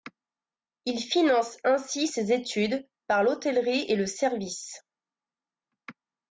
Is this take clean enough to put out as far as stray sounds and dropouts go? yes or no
yes